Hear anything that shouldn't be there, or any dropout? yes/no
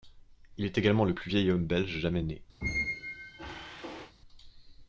yes